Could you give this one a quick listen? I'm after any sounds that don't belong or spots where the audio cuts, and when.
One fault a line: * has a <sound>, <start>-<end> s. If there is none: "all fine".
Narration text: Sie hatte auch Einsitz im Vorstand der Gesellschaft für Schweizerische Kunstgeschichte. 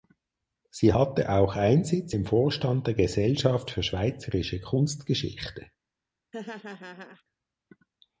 * has a laugh, 6.3-7.2 s